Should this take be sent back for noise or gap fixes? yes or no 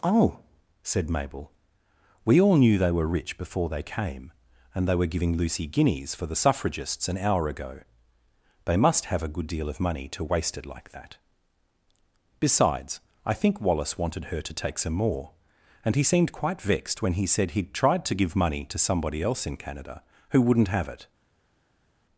no